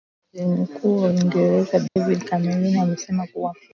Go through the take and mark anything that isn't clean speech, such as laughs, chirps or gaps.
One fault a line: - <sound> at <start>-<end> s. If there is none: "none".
- dropout at 1.9-2.0 s